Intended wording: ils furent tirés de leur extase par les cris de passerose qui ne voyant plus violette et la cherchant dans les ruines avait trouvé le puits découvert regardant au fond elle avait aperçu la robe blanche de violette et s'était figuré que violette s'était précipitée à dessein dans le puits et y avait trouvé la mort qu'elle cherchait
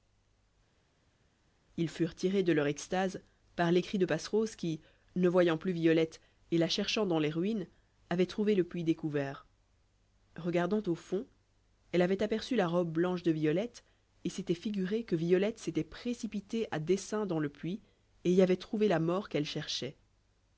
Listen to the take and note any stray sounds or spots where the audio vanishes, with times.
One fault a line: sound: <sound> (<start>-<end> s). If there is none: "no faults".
no faults